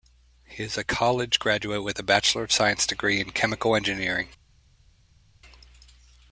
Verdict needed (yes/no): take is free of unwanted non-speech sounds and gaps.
yes